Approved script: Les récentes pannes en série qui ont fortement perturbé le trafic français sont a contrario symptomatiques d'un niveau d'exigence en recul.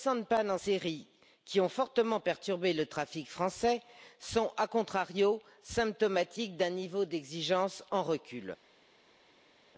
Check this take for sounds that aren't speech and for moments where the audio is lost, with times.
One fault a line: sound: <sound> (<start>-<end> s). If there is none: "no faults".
no faults